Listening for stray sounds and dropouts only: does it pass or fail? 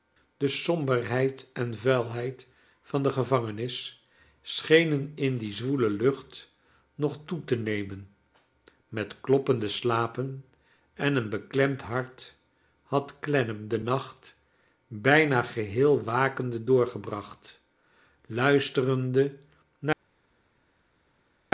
pass